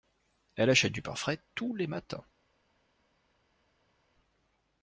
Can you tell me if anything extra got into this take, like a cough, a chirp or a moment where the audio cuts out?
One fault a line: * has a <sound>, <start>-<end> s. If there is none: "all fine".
all fine